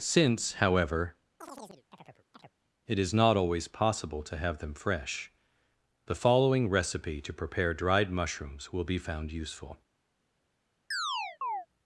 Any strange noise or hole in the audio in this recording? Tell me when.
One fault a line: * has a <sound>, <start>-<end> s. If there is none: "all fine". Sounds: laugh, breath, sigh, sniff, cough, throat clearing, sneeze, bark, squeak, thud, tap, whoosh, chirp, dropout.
* has a chirp, 1.4-2.5 s
* has a chirp, 10.9-11.7 s